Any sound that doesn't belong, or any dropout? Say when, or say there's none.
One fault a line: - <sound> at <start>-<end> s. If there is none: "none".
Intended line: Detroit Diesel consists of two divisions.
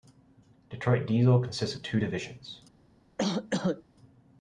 - cough at 3.2-3.8 s